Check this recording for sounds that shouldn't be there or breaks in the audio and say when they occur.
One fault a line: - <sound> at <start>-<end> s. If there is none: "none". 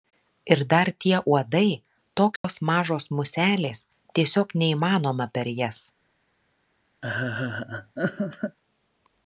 - dropout at 2.4-2.4 s
- laugh at 7.0-8.6 s